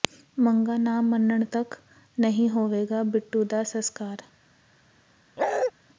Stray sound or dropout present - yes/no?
yes